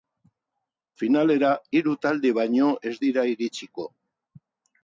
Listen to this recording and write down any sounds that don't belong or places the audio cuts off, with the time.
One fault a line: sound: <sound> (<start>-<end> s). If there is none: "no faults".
no faults